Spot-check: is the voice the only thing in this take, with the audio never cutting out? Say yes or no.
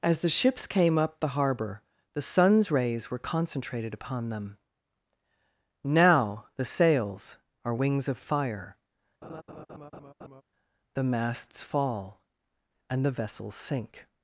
no